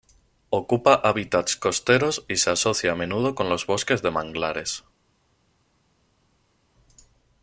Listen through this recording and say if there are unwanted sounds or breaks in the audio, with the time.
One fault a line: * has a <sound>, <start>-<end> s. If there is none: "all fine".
all fine